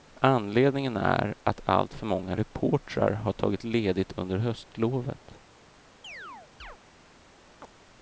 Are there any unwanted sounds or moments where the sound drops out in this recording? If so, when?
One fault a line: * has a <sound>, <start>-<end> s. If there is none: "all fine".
* has a chirp, 6.0-6.8 s
* has a chirp, 7.6-7.7 s